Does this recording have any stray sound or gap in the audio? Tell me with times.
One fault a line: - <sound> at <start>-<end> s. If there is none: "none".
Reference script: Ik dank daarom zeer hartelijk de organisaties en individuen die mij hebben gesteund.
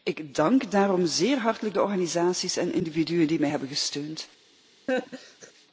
- laugh at 4.9-5.5 s